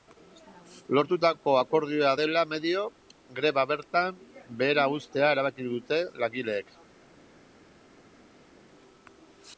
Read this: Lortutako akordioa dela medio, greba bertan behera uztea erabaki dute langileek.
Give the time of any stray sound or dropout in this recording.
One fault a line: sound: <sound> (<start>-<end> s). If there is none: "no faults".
no faults